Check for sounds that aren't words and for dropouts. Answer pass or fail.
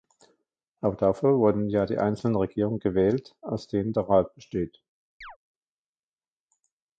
fail